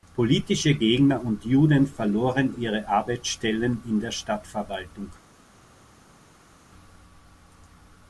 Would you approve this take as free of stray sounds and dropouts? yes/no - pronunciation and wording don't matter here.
yes